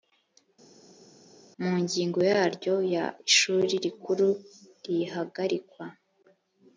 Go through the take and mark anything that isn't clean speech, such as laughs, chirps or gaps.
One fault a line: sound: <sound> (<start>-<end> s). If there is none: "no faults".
no faults